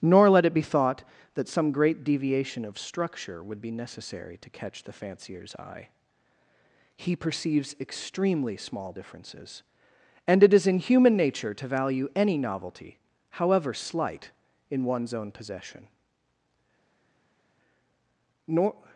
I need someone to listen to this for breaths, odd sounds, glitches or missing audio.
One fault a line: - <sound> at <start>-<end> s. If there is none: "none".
none